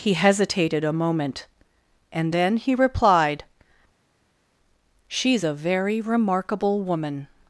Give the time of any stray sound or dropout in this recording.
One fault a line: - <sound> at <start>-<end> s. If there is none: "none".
none